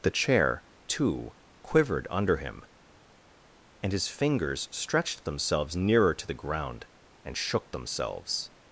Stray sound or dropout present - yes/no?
no